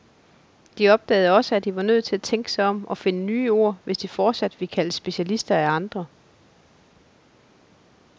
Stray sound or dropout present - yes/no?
no